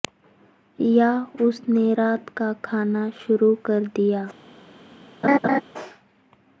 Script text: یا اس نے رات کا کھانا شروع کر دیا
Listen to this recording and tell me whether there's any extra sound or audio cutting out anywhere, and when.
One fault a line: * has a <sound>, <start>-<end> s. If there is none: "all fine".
* has a laugh, 5.2-5.6 s